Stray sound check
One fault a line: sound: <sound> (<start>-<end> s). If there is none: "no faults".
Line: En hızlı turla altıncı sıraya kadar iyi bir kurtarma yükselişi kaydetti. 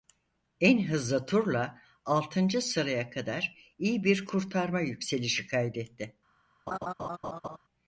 sound: laugh (6.7-7.6 s)